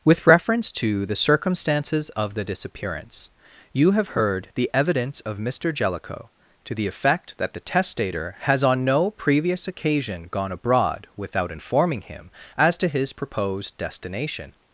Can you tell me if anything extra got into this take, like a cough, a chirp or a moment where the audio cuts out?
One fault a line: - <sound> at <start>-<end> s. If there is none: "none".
none